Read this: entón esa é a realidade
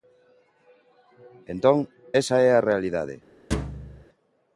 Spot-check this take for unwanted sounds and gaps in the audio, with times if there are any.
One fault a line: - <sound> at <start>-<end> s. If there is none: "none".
- thud at 3.5-4.1 s